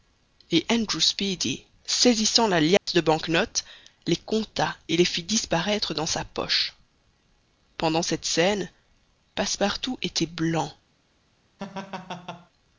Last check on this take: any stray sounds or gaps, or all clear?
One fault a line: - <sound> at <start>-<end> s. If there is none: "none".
- dropout at 2.8-2.9 s
- laugh at 11.6-12.5 s